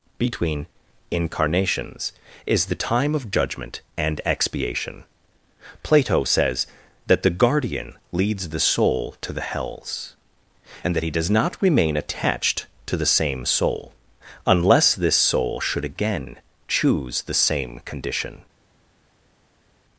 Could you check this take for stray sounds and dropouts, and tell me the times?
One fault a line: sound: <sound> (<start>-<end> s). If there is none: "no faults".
no faults